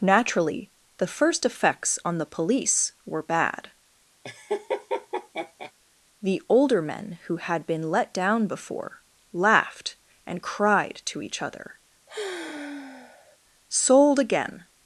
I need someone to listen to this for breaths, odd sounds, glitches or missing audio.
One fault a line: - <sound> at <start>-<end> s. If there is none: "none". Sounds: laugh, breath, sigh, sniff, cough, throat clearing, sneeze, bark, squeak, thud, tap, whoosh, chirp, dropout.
- laugh at 4.2-5.7 s
- sigh at 12.1-13.4 s